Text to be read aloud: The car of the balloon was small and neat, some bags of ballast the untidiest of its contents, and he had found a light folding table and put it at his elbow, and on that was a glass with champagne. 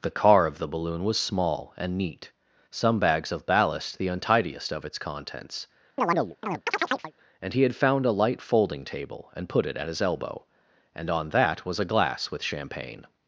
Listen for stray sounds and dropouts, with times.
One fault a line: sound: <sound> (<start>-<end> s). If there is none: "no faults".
sound: chirp (6.0-7.1 s)